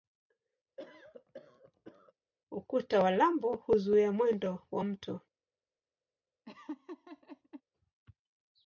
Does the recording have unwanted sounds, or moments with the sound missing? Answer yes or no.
yes